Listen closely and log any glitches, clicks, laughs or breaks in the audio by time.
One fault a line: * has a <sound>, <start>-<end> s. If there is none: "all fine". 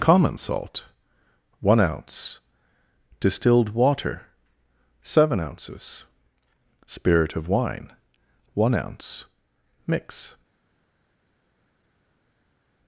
all fine